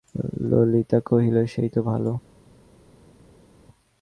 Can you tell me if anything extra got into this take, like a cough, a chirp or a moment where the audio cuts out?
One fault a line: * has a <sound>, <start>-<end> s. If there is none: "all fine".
all fine